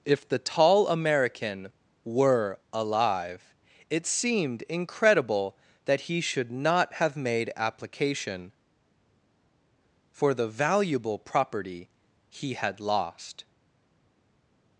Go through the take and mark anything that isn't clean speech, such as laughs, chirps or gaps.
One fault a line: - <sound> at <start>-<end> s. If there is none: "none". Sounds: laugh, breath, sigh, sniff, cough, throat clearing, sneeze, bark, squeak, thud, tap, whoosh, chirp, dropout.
none